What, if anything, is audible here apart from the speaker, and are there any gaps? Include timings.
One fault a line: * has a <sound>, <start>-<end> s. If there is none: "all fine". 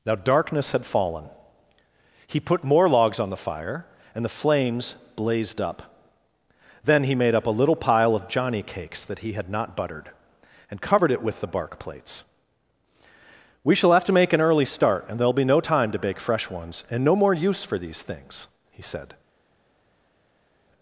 all fine